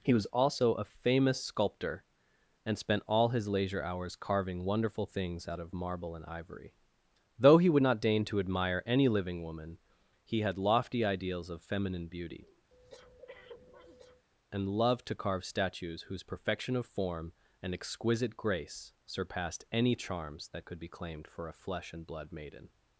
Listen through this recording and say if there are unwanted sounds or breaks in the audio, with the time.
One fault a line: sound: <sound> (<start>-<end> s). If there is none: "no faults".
sound: breath (12.7-14.2 s)